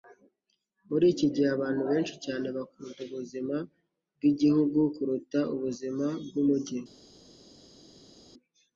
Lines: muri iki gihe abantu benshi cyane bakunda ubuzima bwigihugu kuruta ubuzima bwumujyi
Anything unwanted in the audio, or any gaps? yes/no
no